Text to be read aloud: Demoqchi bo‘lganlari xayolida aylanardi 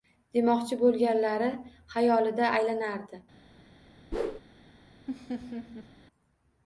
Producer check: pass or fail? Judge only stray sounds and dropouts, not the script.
fail